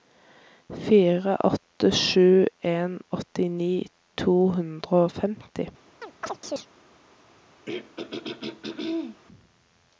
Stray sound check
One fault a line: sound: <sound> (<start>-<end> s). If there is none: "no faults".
sound: chirp (6.0-6.7 s)
sound: throat clearing (7.7-9.2 s)